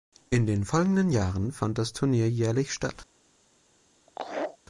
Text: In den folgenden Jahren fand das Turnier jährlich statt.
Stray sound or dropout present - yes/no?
yes